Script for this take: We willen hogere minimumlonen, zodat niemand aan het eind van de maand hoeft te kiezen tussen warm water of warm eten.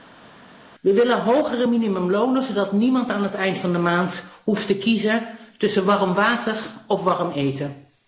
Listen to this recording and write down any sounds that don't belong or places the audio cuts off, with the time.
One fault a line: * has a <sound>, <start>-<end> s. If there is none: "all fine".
all fine